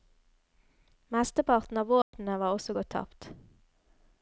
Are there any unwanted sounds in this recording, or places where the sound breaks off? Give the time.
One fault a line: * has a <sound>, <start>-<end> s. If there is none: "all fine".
* has a dropout, 2.0-2.1 s